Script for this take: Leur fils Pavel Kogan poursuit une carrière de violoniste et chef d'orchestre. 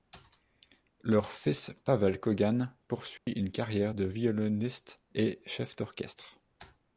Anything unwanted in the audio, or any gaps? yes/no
yes